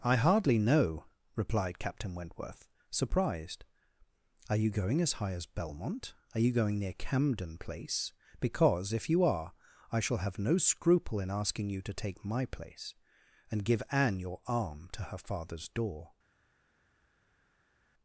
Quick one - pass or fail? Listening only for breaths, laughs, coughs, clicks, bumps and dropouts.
pass